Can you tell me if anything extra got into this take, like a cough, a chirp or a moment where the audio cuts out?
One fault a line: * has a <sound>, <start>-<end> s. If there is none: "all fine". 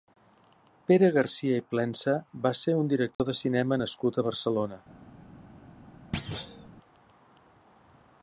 * has a dropout, 3.1-3.2 s
* has a thud, 6.1-6.7 s